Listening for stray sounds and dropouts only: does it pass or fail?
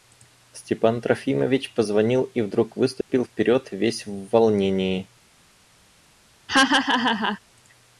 fail